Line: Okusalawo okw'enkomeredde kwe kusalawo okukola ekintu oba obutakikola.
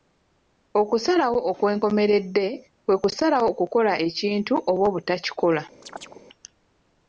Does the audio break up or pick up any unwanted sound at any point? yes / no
yes